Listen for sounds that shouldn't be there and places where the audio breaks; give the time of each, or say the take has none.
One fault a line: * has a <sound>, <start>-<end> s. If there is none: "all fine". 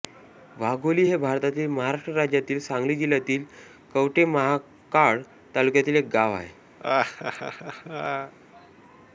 * has a laugh, 6.8-8.3 s